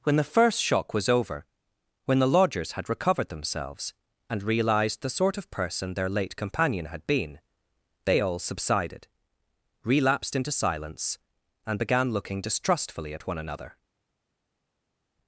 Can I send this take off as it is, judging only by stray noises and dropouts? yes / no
yes